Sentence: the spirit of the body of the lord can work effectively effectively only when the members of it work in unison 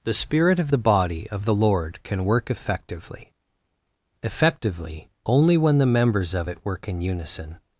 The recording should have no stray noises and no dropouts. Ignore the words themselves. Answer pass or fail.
pass